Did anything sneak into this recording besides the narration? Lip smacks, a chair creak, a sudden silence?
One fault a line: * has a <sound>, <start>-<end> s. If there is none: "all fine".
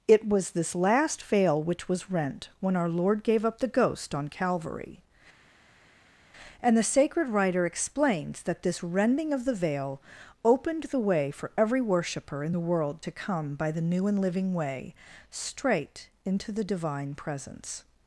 all fine